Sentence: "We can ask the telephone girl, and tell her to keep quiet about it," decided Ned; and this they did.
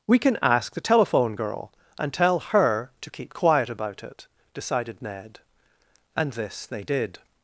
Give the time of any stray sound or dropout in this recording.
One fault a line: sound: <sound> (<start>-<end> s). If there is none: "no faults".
no faults